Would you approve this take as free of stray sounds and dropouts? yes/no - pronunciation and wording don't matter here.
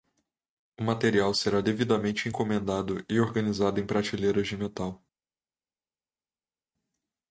yes